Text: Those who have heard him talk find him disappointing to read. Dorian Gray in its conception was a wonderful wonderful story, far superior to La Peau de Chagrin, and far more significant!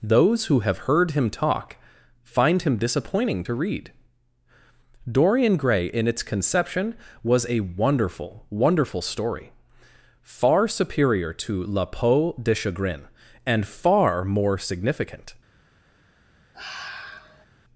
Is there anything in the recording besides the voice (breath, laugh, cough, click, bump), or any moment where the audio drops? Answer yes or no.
yes